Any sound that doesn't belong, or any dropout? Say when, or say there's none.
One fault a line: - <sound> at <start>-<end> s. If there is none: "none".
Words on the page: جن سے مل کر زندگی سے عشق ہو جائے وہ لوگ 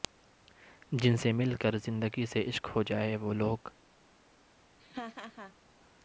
- laugh at 4.8-5.5 s